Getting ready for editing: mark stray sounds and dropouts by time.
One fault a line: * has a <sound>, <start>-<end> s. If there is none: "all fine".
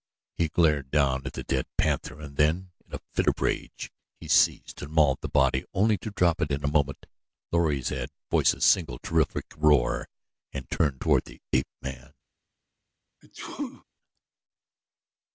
* has a sneeze, 13.2-13.8 s